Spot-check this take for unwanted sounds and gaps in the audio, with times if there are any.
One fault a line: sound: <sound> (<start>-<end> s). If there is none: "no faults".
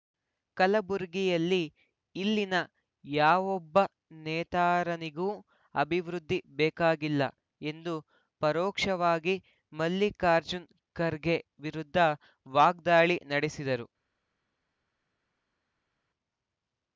no faults